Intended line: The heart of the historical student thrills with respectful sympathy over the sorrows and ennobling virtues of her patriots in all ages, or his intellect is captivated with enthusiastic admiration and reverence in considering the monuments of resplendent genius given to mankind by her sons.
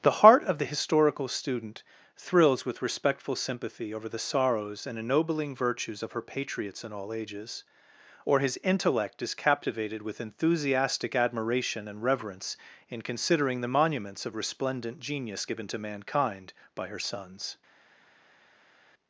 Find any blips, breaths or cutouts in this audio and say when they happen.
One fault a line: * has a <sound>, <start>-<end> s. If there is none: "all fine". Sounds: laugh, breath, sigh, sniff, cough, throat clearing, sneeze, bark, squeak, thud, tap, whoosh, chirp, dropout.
all fine